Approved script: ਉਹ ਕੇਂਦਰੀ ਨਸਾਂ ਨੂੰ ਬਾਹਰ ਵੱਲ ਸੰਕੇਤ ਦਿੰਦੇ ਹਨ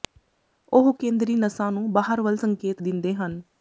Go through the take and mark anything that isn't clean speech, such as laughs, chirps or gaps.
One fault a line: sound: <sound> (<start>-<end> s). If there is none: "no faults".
no faults